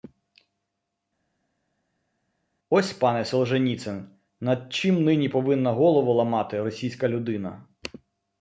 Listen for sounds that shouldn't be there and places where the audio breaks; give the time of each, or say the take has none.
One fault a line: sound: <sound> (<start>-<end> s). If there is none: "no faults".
no faults